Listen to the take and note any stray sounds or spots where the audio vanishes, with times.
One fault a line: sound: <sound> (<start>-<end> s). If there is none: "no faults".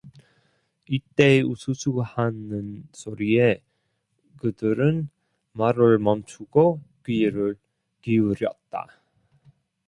no faults